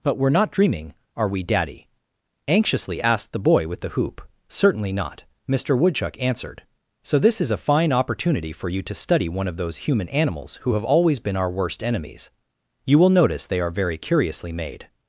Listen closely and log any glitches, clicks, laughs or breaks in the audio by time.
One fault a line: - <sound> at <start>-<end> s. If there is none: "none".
none